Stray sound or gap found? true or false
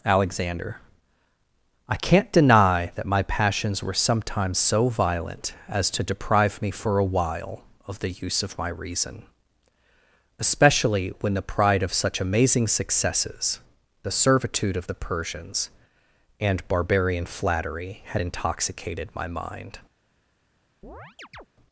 true